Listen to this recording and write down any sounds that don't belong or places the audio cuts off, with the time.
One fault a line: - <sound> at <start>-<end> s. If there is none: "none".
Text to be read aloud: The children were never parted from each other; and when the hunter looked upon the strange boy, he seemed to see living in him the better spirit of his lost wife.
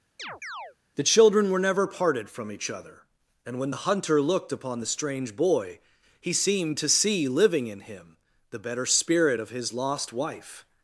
- chirp at 0.2-0.8 s